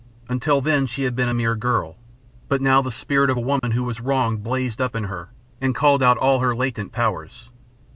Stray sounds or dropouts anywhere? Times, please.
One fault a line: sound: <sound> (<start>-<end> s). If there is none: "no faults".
sound: dropout (3.6-3.6 s)